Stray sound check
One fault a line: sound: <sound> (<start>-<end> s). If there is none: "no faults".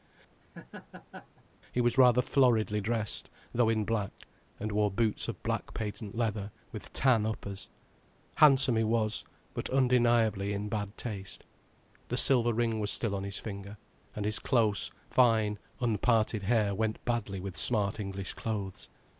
sound: laugh (0.4-1.4 s)